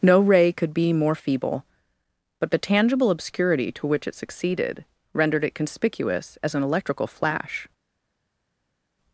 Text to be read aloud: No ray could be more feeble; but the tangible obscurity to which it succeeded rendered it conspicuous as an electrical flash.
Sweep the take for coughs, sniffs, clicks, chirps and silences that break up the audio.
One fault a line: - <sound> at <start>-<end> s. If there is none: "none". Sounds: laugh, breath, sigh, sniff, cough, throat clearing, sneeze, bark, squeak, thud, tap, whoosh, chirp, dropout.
none